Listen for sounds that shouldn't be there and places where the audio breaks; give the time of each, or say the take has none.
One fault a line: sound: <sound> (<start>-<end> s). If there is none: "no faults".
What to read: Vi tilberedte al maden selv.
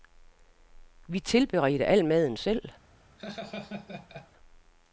sound: laugh (3.2-4.3 s)